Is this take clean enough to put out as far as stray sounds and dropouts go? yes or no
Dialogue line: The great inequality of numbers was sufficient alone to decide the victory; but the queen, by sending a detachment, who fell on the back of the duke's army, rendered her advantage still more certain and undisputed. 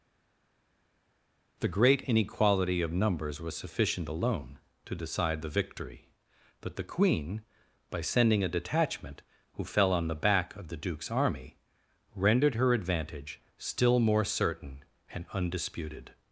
yes